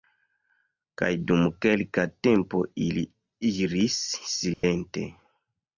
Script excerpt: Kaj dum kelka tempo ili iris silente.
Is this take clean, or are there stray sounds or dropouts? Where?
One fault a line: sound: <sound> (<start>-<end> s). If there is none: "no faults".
sound: dropout (4.5-4.6 s)